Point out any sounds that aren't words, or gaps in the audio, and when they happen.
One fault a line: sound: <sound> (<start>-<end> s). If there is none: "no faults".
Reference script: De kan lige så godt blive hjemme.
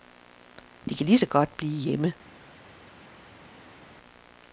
no faults